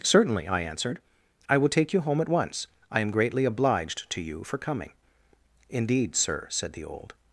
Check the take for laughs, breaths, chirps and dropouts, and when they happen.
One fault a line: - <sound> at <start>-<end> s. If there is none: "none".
none